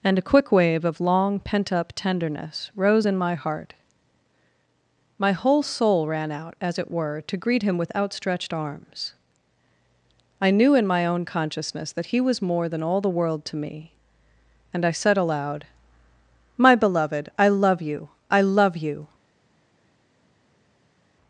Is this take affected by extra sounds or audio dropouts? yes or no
no